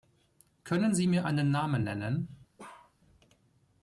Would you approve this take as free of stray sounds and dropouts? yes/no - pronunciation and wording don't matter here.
no